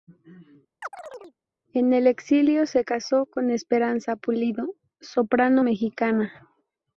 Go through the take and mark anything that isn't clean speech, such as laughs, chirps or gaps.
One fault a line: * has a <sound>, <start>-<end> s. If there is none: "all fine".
* has a chirp, 0.8-1.4 s